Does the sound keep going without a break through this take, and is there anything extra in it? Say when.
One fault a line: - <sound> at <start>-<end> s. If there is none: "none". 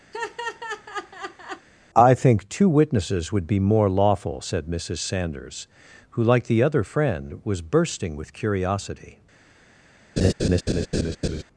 - laugh at 0.1-1.7 s
- laugh at 10.2-11.4 s